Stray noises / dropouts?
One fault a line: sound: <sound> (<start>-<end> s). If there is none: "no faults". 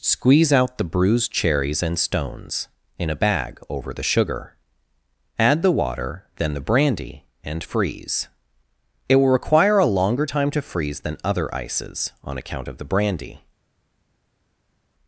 no faults